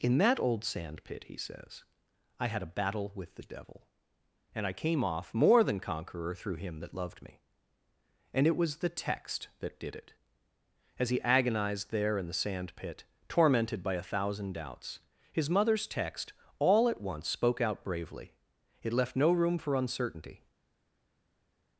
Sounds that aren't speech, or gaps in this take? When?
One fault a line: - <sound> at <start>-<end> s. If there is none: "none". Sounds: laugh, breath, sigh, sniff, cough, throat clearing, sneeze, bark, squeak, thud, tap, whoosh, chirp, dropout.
none